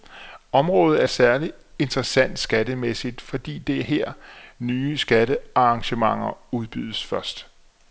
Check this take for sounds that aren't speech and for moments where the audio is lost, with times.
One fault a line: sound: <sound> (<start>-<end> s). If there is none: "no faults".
no faults